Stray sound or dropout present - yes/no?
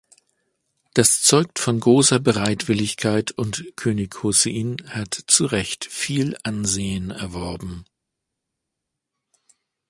no